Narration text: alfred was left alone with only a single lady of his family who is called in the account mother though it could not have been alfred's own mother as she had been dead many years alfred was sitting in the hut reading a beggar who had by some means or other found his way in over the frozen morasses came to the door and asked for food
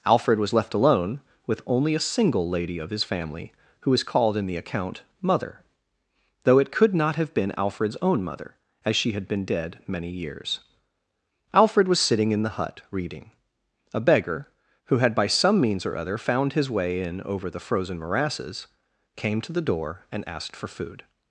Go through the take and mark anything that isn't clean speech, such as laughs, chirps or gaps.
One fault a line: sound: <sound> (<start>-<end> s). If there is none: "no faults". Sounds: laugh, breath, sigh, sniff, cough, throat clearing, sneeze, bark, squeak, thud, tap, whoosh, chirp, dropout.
no faults